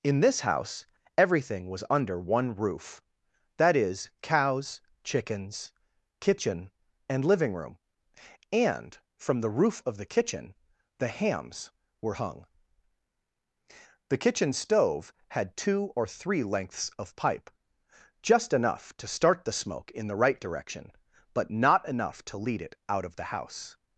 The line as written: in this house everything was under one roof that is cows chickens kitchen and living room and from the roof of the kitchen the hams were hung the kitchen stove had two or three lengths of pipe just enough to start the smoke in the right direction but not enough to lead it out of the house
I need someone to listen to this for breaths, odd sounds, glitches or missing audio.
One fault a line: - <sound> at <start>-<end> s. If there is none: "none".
none